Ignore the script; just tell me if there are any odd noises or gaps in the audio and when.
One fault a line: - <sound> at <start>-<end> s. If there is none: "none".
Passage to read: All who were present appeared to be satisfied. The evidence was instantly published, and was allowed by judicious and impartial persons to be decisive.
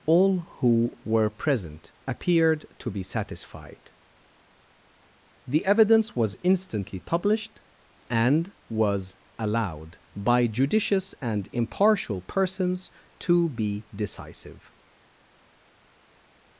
none